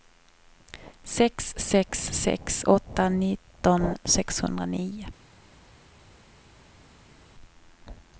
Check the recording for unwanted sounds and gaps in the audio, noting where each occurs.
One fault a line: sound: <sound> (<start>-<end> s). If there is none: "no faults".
no faults